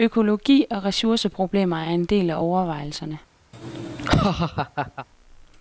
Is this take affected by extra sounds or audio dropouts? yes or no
yes